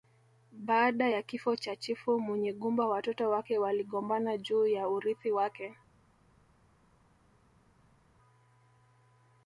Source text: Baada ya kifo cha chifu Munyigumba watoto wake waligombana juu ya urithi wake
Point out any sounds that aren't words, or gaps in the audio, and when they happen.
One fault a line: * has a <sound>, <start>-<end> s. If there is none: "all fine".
all fine